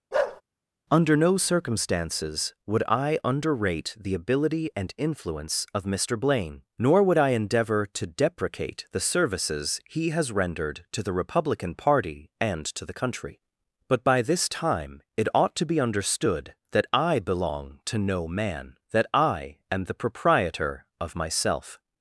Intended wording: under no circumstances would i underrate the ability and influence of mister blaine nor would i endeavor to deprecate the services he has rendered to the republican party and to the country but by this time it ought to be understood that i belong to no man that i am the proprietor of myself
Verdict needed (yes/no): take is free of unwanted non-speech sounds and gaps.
no